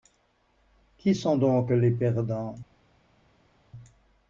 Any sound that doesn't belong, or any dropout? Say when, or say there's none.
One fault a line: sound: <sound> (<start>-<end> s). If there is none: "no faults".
no faults